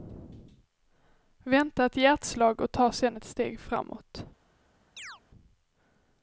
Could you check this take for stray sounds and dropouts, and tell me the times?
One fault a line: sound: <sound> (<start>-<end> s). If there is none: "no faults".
sound: chirp (5.0-5.2 s)